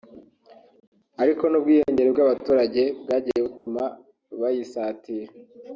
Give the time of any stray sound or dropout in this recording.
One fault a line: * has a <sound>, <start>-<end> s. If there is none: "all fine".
* has a dropout, 3.6-3.7 s